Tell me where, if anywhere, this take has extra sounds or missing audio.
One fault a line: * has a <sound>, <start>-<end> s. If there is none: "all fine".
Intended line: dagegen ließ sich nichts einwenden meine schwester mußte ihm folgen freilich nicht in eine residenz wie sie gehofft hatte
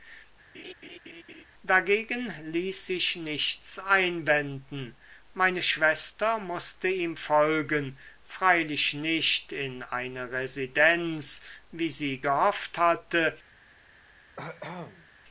* has a laugh, 0.5-1.4 s
* has a cough, 14.4-15.1 s